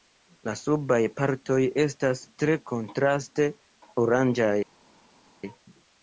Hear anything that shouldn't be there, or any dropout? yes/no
no